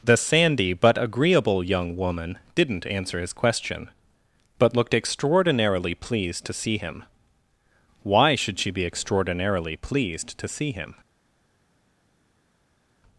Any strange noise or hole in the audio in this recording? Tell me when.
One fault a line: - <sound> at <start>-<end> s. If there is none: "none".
none